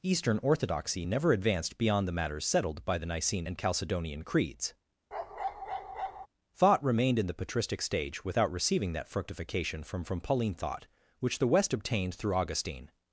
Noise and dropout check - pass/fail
fail